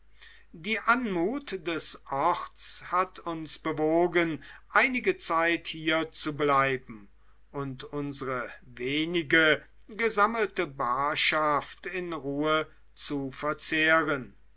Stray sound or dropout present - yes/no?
no